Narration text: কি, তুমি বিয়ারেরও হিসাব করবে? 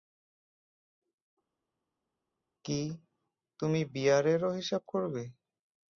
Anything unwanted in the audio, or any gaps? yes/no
no